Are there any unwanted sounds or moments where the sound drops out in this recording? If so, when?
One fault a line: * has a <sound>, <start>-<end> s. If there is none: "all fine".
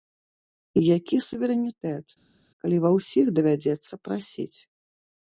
all fine